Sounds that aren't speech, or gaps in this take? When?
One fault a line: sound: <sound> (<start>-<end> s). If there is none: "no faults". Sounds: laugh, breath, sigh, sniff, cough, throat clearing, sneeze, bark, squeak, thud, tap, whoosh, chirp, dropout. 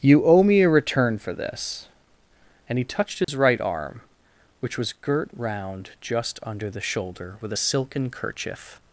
sound: dropout (3.2-3.3 s)